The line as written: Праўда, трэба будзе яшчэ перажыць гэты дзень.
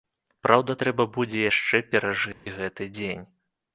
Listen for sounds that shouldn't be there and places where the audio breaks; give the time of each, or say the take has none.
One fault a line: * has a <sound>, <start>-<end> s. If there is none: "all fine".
* has a dropout, 2.3-2.5 s